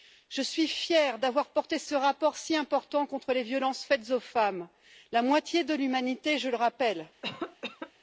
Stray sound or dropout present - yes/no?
yes